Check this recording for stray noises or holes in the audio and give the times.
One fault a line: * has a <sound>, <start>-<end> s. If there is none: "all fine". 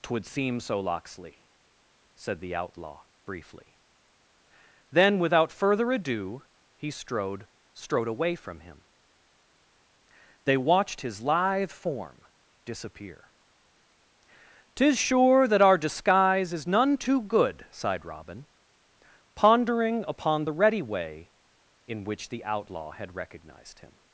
all fine